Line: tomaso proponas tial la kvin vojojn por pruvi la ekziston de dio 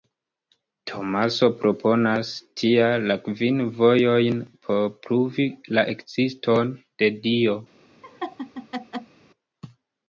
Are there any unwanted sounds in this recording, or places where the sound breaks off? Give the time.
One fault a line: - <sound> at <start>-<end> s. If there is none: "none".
- laugh at 8.0-9.2 s